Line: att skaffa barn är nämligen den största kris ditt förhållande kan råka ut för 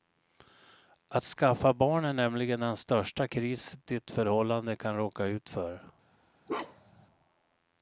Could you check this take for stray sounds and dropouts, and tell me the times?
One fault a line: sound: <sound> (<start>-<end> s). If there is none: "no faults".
sound: bark (6.5-7.1 s)